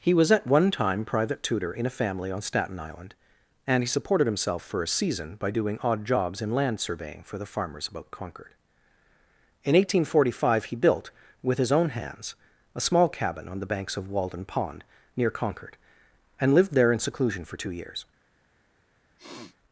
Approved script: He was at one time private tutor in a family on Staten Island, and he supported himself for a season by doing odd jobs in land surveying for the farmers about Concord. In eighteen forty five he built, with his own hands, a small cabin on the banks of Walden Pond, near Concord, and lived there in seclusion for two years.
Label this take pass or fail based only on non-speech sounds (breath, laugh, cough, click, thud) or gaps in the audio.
fail